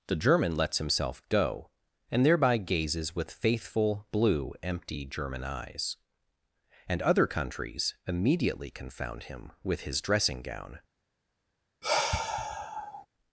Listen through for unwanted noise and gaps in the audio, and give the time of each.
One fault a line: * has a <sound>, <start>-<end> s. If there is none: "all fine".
* has a sigh, 11.8-13.1 s